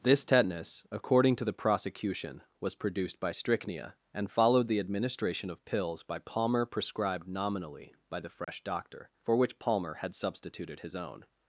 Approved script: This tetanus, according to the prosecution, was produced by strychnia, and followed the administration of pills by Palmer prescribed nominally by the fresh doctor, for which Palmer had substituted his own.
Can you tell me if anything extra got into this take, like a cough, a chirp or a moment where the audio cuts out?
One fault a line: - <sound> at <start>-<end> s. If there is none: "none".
- dropout at 8.4-8.5 s